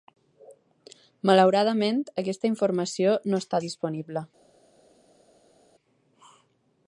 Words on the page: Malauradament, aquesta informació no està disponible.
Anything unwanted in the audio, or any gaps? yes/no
no